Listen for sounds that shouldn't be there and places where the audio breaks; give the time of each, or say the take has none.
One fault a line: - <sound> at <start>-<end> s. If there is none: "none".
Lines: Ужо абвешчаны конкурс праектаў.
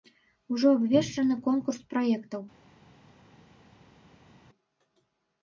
none